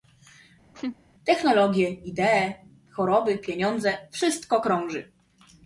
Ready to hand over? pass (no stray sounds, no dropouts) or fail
fail